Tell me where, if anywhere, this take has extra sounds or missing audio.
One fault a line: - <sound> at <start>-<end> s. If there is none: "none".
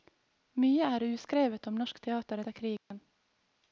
- dropout at 2.8-2.9 s